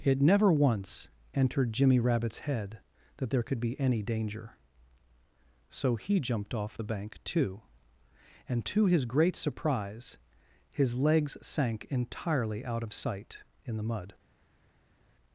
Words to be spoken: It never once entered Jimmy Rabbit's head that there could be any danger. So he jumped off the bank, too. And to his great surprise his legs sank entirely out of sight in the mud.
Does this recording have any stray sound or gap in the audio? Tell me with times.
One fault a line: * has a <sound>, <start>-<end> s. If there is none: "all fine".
all fine